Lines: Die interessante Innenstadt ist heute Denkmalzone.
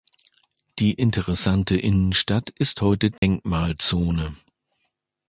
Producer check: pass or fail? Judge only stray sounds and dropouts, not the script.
fail